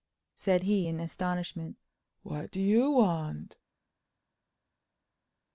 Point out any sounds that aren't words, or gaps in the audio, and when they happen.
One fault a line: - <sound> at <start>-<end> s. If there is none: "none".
none